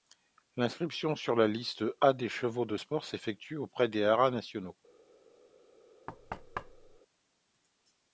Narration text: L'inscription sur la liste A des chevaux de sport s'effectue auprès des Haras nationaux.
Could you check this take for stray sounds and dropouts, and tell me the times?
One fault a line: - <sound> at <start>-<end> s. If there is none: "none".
- thud at 6.1-7.0 s